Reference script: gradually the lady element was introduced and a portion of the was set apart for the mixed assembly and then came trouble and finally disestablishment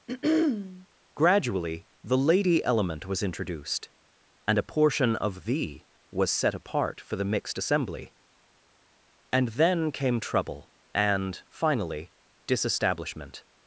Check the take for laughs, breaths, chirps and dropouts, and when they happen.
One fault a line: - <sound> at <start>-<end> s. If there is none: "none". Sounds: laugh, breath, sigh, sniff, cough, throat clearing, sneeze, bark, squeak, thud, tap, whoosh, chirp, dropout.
- throat clearing at 0.1-0.9 s